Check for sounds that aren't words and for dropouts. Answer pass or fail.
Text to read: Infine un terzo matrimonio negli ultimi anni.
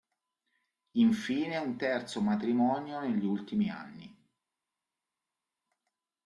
pass